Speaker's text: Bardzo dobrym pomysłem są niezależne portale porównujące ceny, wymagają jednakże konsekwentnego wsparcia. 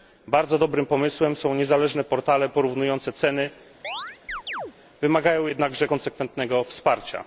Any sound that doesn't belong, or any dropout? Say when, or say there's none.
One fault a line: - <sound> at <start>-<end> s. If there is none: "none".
- chirp at 3.8-4.7 s